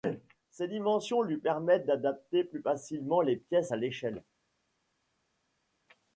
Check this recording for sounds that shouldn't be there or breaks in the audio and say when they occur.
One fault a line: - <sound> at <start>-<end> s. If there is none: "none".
none